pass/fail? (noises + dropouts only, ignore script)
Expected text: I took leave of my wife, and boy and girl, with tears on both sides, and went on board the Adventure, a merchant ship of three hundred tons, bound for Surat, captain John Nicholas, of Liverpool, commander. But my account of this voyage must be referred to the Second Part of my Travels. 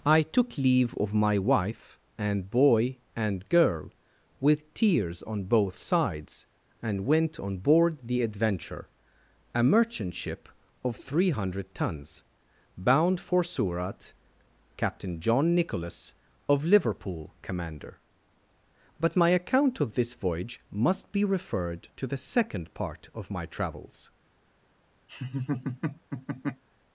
fail